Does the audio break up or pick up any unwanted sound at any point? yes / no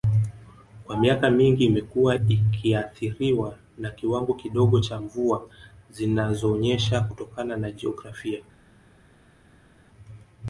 no